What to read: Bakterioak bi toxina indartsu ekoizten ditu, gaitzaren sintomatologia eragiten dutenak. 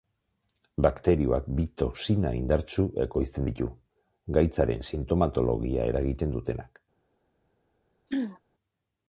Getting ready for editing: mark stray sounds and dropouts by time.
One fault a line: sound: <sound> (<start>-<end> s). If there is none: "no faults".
sound: throat clearing (8.1-8.4 s)